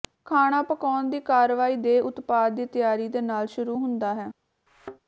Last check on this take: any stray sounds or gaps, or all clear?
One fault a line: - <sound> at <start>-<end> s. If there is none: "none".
- thud at 4.7-5.0 s